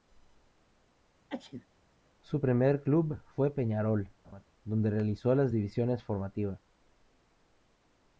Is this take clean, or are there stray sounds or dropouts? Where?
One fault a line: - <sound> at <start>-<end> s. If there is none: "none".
- sneeze at 1.3-1.7 s
- laugh at 4.2-4.4 s